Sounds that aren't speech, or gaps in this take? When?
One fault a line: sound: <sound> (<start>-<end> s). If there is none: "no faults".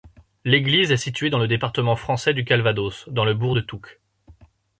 no faults